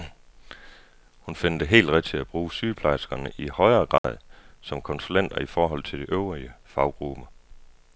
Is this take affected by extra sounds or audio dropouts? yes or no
yes